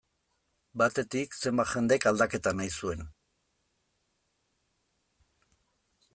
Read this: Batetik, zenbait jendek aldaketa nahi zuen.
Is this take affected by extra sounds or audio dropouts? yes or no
no